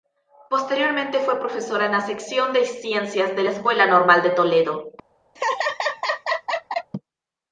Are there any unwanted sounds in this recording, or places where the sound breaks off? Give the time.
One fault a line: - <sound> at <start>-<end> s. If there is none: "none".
- laugh at 5.4-6.9 s